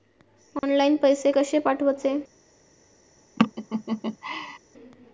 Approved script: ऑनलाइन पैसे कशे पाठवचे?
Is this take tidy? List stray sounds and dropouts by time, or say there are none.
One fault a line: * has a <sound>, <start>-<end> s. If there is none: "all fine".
* has a dropout, 0.6-0.6 s
* has a laugh, 3.4-4.6 s